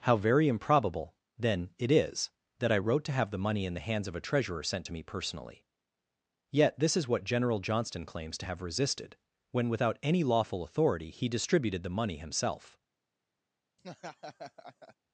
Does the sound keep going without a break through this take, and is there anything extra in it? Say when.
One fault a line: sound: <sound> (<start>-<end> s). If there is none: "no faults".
sound: laugh (13.8-15.0 s)